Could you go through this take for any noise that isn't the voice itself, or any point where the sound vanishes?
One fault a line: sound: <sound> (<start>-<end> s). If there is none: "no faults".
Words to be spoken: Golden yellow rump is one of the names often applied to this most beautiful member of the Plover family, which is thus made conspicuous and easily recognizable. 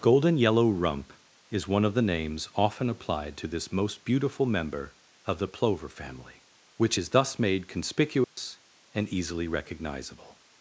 sound: dropout (8.2-8.4 s)